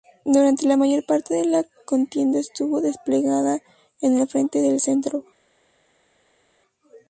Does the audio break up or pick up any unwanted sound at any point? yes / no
no